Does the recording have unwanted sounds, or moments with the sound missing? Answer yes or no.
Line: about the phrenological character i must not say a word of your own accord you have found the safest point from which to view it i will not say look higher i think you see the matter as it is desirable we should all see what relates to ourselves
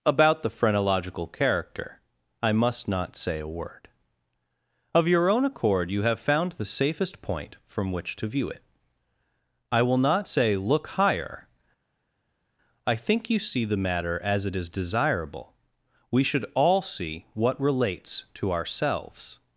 no